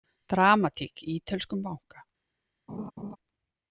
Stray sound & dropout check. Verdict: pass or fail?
fail